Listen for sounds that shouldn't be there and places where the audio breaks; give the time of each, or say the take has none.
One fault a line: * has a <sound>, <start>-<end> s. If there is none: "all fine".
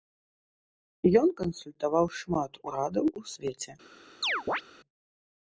* has a chirp, 4.2-4.6 s